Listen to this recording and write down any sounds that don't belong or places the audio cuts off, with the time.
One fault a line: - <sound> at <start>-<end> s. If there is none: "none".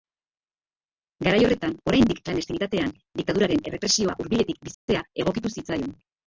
- dropout at 4.7-4.9 s